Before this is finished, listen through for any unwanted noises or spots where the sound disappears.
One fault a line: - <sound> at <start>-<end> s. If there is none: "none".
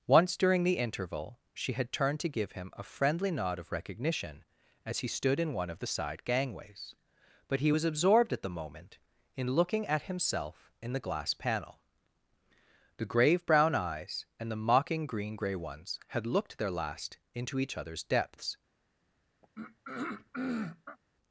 - throat clearing at 19.4-21.0 s